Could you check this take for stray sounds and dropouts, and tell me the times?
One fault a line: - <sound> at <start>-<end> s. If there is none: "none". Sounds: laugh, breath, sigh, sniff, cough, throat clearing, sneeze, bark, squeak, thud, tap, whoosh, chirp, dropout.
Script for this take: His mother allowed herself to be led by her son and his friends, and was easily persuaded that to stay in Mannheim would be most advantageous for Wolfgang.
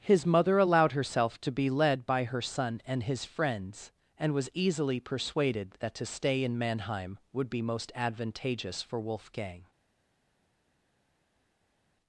none